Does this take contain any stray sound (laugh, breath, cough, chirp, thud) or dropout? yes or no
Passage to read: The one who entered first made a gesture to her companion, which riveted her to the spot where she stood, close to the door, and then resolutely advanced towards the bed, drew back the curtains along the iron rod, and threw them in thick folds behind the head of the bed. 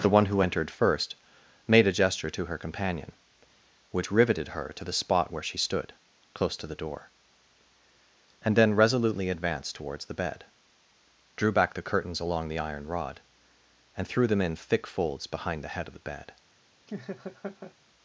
yes